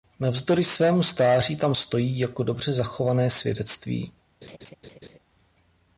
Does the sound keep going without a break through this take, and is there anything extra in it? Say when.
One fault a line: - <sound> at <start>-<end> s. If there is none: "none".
- laugh at 4.4-5.2 s